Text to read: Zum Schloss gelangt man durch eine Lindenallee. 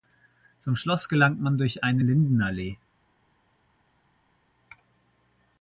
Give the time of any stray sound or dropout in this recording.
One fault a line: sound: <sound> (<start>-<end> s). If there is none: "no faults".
no faults